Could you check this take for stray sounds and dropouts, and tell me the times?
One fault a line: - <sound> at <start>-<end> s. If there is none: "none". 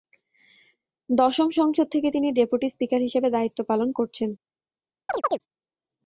- chirp at 5.1-5.4 s